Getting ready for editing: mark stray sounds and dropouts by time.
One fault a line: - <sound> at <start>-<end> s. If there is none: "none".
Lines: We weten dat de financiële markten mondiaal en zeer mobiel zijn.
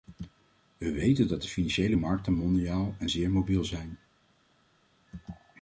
none